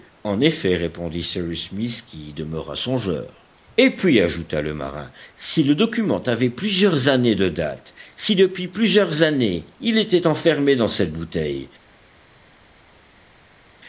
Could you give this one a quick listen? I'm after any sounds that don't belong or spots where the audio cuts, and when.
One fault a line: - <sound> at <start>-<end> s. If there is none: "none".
none